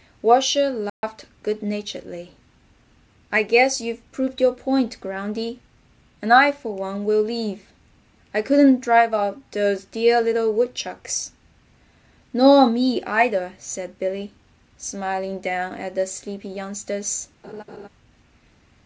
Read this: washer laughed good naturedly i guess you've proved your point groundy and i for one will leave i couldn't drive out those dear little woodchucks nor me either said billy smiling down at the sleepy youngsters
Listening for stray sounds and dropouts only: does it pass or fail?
fail